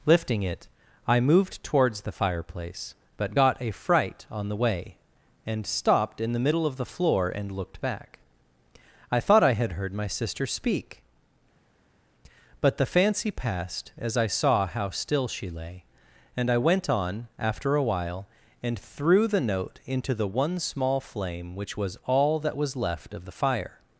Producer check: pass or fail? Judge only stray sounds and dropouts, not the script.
pass